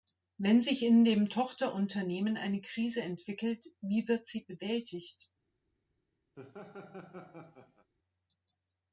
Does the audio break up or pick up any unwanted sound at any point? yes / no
yes